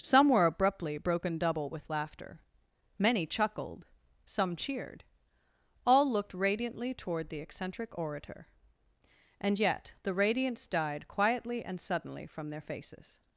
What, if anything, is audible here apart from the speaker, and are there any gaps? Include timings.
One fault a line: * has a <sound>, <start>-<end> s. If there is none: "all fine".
all fine